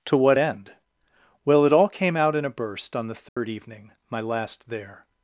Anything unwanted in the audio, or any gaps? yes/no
yes